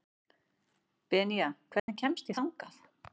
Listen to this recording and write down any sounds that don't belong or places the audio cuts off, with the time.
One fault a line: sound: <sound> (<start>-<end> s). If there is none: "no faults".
sound: dropout (1.8-1.9 s)